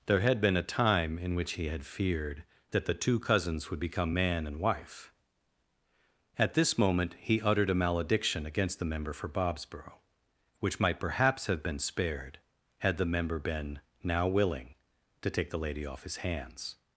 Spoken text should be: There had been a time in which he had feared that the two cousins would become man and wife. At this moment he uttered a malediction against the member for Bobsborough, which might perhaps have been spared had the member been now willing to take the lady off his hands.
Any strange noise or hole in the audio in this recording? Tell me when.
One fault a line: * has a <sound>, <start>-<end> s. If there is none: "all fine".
all fine